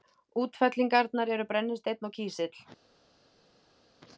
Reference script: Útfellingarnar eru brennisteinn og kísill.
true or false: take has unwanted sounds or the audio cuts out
false